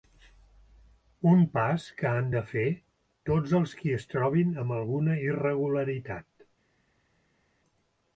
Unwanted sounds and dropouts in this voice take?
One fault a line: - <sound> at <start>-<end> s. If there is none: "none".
none